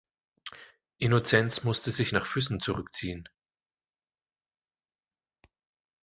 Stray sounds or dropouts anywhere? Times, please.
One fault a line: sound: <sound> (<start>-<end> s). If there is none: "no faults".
no faults